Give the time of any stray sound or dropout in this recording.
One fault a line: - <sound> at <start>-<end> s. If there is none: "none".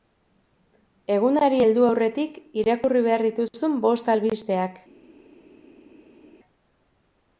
none